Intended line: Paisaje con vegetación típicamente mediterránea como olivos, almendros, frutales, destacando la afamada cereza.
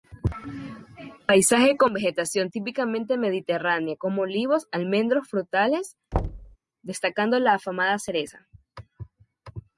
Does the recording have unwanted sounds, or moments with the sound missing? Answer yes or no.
yes